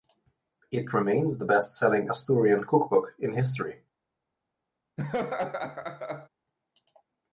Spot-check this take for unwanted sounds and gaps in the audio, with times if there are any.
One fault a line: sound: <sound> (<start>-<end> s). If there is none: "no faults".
sound: laugh (5.0-6.3 s)